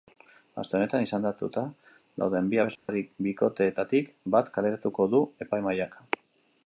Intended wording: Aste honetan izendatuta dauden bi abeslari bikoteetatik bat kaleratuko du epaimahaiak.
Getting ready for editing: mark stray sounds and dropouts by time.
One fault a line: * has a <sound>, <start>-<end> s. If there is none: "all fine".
* has a dropout, 2.8-2.9 s